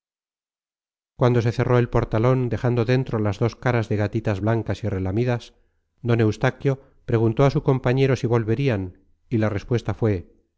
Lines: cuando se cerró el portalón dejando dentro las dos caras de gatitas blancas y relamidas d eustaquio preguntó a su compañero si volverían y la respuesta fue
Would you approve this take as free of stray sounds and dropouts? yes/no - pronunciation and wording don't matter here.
yes